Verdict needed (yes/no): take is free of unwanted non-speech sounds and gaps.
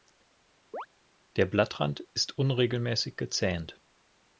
no